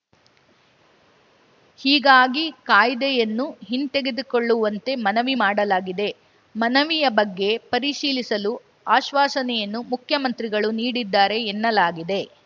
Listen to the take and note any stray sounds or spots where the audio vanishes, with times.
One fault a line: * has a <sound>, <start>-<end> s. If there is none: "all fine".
all fine